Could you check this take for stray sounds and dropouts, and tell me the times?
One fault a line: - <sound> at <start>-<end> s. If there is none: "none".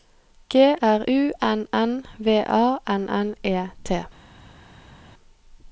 none